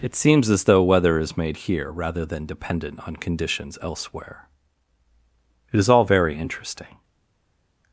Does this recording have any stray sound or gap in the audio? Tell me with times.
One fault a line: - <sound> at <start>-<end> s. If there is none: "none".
none